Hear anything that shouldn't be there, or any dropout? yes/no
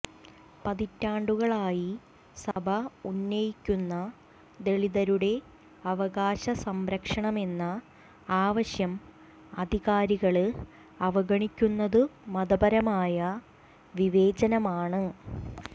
yes